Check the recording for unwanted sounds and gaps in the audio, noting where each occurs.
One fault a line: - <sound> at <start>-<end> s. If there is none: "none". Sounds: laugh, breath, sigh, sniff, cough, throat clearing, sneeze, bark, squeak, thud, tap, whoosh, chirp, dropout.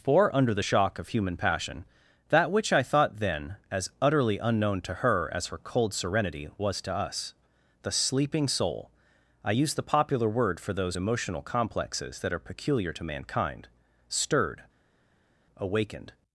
none